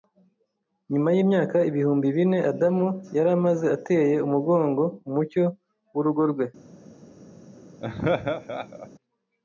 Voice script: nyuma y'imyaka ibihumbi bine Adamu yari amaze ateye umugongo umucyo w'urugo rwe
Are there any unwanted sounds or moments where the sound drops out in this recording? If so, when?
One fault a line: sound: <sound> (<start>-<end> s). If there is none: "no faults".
sound: laugh (7.8-8.9 s)